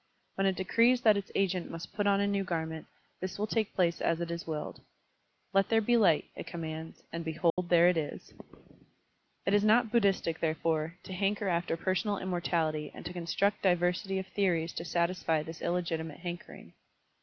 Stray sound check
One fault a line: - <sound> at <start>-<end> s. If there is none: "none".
- dropout at 7.5-7.6 s